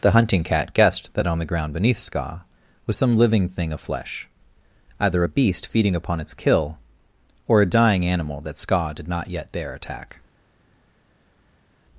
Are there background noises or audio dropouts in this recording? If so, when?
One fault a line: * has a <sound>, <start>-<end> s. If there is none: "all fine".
all fine